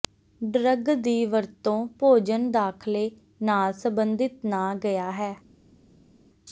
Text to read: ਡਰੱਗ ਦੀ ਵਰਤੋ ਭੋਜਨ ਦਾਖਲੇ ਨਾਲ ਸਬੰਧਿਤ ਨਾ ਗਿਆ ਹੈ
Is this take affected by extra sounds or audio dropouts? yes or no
no